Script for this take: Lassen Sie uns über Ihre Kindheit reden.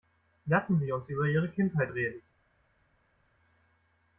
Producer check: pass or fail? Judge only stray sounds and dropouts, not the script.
pass